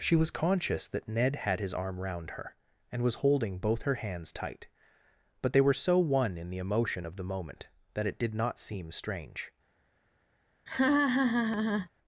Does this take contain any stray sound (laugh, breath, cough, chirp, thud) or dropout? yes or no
yes